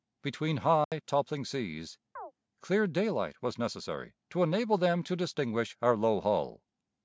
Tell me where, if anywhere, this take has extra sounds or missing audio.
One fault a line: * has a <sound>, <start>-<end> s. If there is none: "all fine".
* has a dropout, 0.8-0.9 s
* has a chirp, 2.2-2.3 s